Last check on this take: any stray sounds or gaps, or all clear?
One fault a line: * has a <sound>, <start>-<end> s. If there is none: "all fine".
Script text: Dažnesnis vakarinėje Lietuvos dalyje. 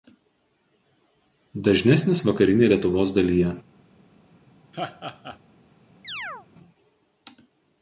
* has a laugh, 4.7-5.4 s
* has a chirp, 6.0-6.5 s